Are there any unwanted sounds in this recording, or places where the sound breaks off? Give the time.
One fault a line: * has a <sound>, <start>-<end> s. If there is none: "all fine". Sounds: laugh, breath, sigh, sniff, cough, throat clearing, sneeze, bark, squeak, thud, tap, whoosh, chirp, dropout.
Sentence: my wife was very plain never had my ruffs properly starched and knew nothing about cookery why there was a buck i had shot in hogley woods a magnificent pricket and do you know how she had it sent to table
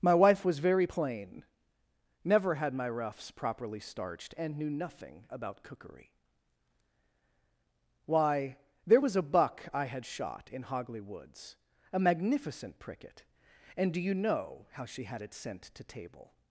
all fine